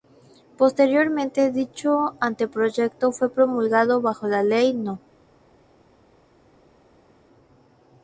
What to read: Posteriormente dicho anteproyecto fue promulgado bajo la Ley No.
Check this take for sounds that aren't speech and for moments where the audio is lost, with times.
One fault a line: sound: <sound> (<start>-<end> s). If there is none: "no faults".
no faults